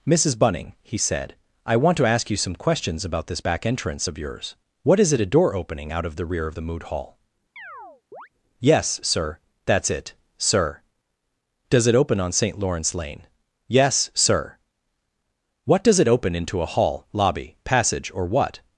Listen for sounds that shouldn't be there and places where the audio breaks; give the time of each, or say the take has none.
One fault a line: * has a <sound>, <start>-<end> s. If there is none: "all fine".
* has a chirp, 7.6-8.3 s